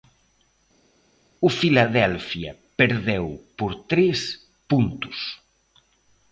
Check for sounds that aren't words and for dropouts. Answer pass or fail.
pass